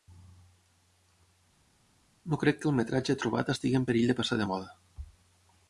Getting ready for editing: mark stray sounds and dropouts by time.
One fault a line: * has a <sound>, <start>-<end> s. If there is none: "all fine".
all fine